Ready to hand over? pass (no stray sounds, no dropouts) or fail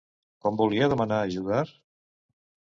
pass